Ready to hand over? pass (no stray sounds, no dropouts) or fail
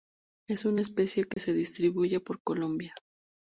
fail